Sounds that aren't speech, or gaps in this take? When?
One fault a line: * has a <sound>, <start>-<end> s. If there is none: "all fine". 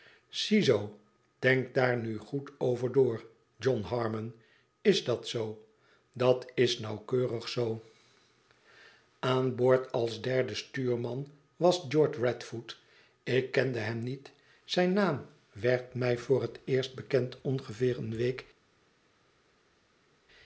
all fine